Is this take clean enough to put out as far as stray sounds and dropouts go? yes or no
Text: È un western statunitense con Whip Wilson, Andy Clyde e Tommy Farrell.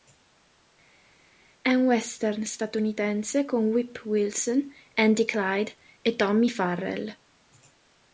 yes